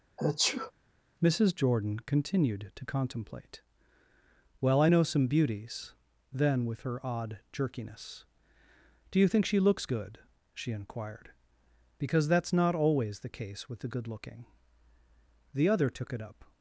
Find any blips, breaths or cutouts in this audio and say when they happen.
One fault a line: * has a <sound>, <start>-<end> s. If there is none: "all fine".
* has a sneeze, 0.2-0.7 s